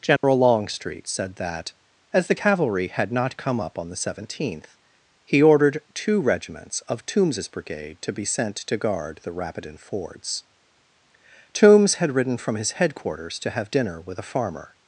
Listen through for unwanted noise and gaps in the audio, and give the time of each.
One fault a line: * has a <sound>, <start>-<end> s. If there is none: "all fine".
* has a dropout, 0.2-0.2 s